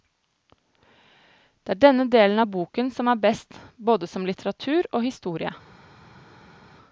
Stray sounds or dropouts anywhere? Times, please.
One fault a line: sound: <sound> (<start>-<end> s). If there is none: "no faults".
no faults